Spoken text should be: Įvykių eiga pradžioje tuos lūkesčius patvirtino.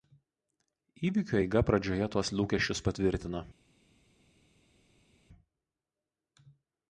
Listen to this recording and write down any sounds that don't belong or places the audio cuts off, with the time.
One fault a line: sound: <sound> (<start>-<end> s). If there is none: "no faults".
no faults